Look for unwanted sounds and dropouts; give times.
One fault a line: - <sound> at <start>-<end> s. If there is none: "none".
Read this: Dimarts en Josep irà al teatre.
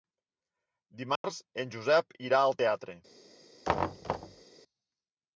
- dropout at 1.2-1.2 s
- thud at 3.6-4.4 s